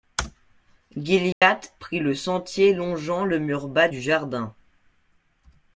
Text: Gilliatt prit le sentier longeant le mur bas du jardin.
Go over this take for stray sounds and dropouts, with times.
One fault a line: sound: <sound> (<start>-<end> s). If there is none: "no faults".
sound: dropout (1.3-1.4 s)